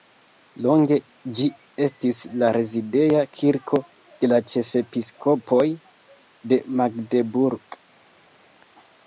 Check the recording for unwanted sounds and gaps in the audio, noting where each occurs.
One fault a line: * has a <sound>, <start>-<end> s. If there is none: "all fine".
all fine